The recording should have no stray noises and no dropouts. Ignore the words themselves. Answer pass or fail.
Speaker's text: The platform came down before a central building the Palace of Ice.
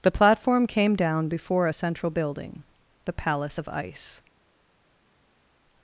pass